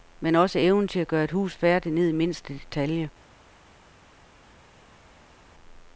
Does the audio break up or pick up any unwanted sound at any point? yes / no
no